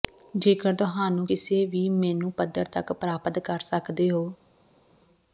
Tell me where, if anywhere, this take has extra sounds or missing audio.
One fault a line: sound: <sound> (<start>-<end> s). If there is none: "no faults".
no faults